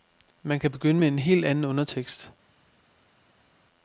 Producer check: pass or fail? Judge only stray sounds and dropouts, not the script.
pass